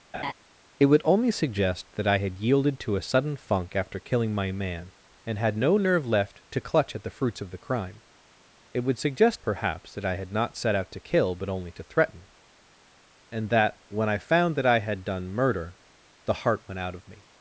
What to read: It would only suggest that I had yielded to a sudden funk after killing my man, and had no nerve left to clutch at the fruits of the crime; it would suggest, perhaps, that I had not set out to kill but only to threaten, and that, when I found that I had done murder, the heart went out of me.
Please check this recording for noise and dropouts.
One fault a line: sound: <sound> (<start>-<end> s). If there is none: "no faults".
sound: laugh (0.1-0.3 s)